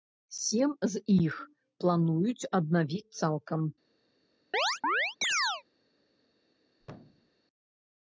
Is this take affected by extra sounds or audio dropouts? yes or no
yes